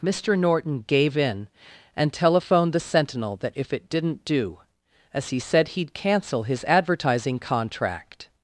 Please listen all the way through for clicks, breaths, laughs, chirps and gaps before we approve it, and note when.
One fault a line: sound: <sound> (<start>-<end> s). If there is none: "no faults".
no faults